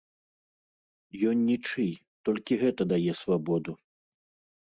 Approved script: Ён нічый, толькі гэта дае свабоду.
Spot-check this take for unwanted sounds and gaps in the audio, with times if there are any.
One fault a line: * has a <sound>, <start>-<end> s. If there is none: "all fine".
all fine